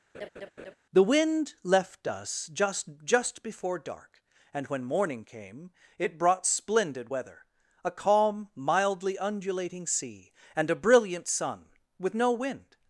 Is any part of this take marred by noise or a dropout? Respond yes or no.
yes